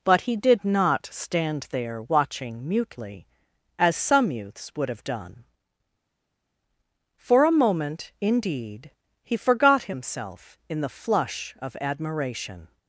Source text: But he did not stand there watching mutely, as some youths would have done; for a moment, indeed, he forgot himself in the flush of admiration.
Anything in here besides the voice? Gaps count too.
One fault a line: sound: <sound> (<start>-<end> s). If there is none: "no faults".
no faults